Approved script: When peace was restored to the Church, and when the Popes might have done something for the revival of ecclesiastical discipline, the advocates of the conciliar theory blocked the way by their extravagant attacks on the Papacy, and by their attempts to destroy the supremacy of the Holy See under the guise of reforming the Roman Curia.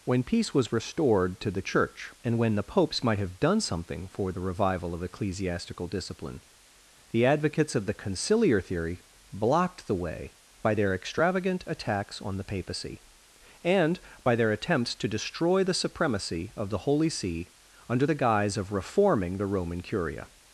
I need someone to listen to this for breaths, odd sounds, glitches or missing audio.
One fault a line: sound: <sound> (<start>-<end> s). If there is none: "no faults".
no faults